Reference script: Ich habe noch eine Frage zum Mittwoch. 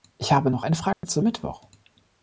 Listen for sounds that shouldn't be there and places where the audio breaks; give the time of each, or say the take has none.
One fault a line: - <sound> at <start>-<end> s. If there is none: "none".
- dropout at 0.9-1.0 s